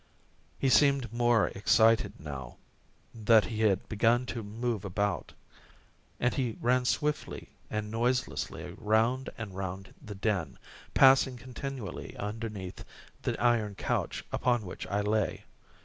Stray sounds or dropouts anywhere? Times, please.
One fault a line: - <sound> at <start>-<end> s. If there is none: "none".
none